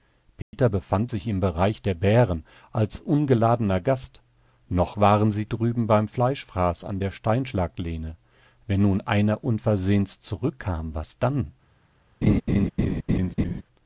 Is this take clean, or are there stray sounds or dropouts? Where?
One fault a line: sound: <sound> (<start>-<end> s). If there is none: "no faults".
sound: dropout (0.4-0.5 s)
sound: laugh (12.2-13.6 s)